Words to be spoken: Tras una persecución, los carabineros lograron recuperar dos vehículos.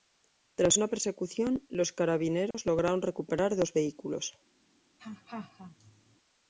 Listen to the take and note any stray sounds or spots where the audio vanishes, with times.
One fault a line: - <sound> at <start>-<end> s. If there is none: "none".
- dropout at 2.5-2.5 s
- laugh at 5.0-6.2 s